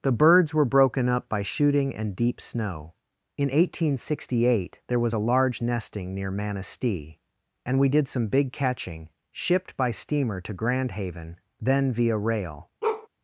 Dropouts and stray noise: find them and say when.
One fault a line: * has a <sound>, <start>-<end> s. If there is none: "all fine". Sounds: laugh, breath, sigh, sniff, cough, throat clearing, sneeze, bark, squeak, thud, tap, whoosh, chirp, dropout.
* has a bark, 12.8-13.1 s